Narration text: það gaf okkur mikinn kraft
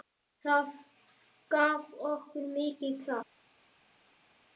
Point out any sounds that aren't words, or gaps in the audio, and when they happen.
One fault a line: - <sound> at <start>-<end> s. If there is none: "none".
none